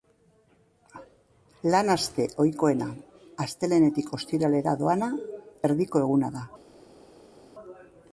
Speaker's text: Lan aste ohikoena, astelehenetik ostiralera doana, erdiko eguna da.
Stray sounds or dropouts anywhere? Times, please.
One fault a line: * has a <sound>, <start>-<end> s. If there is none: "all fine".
all fine